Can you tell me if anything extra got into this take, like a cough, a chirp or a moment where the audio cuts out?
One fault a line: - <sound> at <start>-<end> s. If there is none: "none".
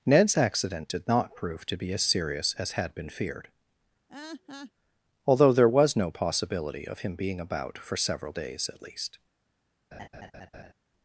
- laugh at 4.1-4.7 s
- laugh at 9.9-10.7 s